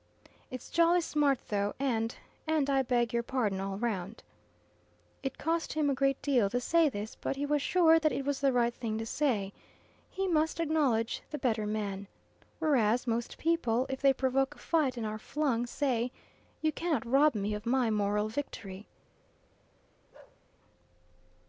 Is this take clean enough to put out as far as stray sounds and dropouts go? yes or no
no